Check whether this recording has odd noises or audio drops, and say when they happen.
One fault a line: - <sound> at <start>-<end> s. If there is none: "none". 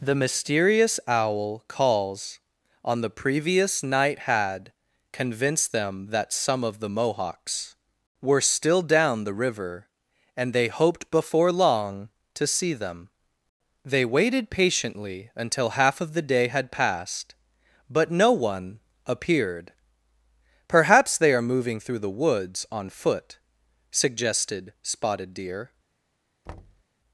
- thud at 26.5-26.8 s